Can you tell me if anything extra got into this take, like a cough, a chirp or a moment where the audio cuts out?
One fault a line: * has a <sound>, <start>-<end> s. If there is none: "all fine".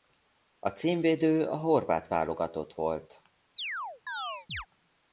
* has a chirp, 3.6-4.7 s